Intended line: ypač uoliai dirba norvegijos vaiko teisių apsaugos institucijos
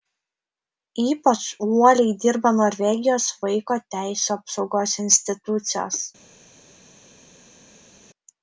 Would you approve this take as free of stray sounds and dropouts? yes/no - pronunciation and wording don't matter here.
yes